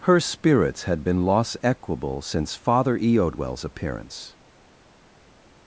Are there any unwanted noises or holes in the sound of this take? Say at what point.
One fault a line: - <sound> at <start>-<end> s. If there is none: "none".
none